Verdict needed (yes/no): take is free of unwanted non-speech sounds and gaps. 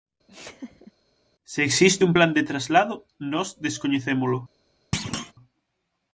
no